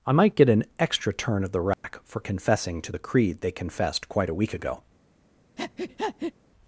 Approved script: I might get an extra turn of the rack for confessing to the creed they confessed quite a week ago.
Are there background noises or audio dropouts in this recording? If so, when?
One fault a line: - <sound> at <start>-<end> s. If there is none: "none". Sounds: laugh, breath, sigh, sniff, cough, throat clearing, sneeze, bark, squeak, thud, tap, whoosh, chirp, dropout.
- dropout at 1.7-1.8 s
- breath at 5.6-6.3 s